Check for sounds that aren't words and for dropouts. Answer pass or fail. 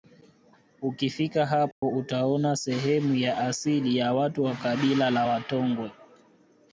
fail